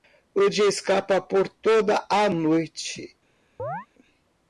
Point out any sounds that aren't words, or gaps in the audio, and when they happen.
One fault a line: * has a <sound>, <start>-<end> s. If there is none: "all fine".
* has a chirp, 3.6-3.9 s